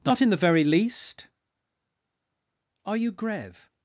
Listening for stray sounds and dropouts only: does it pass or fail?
pass